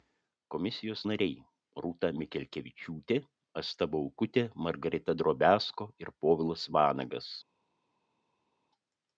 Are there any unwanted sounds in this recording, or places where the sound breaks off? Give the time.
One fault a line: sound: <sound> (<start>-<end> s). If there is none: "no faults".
no faults